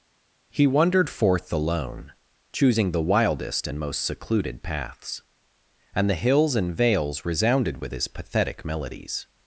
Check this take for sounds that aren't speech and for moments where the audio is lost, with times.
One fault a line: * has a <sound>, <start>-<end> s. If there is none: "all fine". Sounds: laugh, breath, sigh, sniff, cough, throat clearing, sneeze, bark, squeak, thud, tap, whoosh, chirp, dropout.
all fine